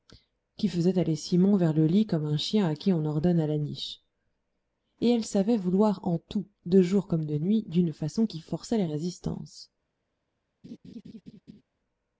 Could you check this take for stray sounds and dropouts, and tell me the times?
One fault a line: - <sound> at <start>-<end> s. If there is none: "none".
- laugh at 10.6-11.6 s